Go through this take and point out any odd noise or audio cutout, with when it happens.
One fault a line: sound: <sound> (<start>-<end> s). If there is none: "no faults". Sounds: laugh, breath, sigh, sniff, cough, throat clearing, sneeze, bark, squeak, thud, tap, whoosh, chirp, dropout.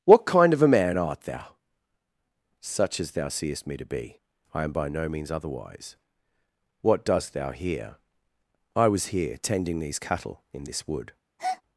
sound: breath (11.4-11.6 s)